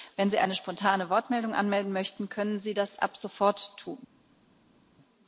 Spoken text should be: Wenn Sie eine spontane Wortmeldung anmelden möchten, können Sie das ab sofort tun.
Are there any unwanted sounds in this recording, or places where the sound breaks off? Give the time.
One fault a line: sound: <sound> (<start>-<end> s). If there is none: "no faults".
no faults